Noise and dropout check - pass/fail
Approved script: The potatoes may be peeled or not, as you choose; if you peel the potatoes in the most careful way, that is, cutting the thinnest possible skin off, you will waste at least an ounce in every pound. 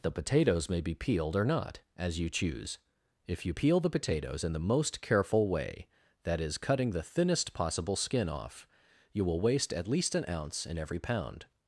pass